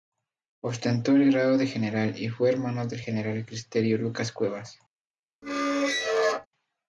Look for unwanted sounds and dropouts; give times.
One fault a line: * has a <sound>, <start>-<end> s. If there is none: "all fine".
* has a squeak, 5.4-6.5 s